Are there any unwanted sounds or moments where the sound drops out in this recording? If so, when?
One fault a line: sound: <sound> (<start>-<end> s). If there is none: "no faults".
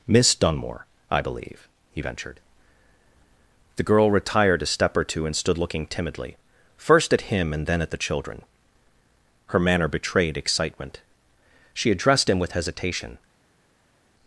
no faults